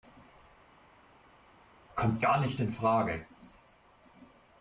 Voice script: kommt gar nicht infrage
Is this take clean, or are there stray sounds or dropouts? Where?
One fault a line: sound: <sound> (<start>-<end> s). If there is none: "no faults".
no faults